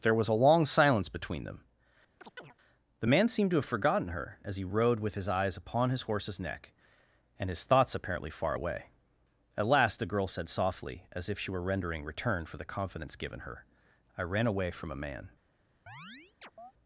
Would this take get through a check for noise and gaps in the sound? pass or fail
fail